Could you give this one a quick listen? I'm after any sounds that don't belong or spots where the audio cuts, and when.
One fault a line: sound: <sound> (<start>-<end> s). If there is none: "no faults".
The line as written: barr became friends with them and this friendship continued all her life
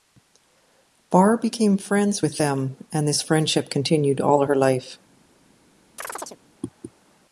sound: chirp (6.0-6.4 s)